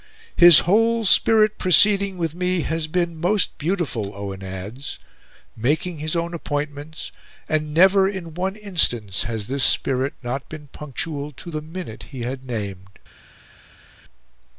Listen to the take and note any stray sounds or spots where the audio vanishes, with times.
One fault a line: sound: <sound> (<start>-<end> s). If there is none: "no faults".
no faults